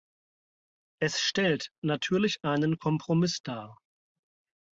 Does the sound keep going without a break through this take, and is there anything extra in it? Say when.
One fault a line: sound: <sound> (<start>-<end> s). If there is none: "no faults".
no faults